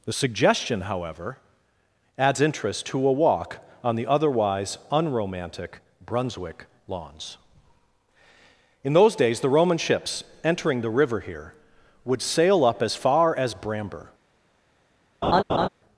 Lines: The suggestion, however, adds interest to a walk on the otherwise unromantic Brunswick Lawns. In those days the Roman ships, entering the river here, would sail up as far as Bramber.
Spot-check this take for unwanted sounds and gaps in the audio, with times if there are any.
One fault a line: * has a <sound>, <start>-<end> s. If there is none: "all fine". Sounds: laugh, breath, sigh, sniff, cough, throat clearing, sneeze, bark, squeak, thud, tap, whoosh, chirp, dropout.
* has a laugh, 15.2-15.7 s